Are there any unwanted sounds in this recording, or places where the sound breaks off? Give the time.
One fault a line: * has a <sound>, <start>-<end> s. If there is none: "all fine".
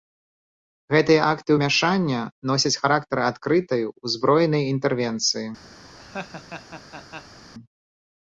* has a laugh, 5.8-7.4 s